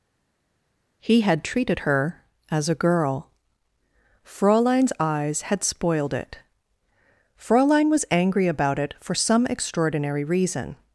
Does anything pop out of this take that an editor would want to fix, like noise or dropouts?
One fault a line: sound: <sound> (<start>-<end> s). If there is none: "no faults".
no faults